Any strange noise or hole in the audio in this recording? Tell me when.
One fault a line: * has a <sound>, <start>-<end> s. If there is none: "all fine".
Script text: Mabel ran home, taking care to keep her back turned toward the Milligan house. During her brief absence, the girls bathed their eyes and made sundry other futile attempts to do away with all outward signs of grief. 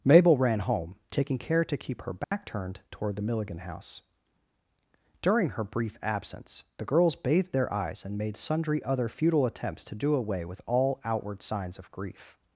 * has a dropout, 2.2-2.3 s